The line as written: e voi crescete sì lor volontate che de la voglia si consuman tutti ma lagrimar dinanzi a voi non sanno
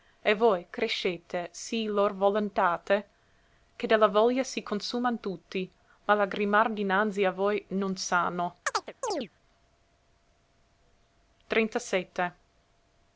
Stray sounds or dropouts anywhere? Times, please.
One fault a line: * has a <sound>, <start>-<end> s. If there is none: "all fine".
* has a chirp, 8.7-9.3 s